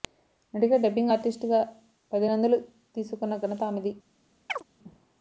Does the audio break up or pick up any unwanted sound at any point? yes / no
yes